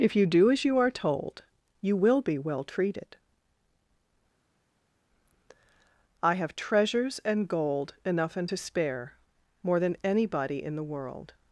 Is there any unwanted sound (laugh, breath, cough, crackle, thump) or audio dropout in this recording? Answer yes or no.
no